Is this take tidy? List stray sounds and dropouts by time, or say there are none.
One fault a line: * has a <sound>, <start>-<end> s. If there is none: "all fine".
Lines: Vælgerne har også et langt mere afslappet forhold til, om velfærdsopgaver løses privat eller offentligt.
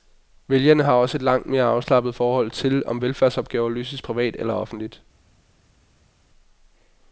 all fine